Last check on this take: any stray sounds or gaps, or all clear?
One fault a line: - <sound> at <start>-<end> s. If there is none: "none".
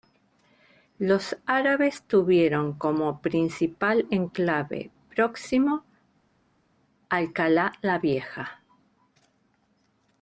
none